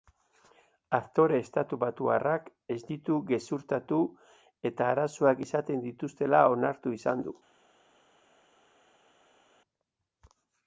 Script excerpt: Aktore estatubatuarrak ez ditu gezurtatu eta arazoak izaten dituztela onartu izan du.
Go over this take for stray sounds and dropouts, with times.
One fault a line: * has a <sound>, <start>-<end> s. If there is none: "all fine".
all fine